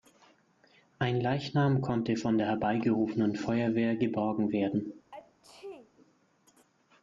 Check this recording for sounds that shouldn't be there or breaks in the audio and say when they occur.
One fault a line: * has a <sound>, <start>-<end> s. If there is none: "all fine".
* has a sneeze, 5.1-5.9 s